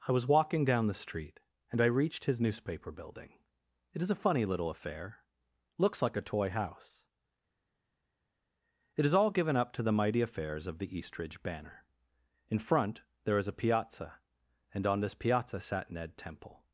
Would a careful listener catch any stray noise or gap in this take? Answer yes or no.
no